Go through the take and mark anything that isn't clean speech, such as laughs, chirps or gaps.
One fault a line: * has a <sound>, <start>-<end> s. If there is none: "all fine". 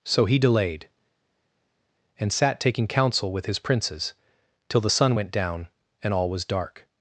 all fine